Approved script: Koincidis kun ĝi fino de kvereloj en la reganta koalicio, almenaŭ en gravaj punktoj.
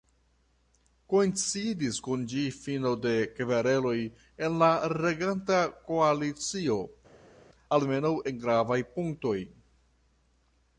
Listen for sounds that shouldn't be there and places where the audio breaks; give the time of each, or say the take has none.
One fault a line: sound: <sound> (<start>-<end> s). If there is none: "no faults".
no faults